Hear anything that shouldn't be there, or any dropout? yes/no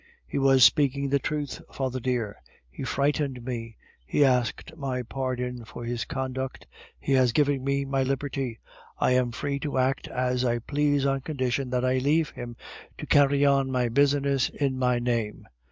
no